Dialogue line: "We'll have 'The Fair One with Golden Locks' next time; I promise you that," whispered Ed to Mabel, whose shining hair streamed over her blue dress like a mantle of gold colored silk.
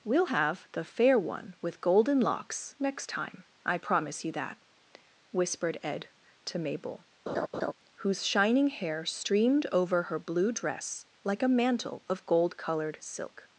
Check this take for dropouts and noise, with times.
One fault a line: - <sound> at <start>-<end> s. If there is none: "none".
- laugh at 7.3-7.7 s